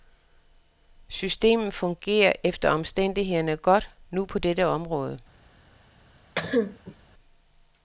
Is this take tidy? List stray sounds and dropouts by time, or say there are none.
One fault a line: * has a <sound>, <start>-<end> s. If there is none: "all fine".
* has a cough, 6.4-7.0 s